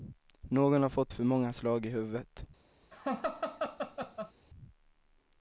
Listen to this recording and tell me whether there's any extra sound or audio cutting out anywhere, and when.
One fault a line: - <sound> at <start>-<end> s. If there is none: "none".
- laugh at 2.9-4.3 s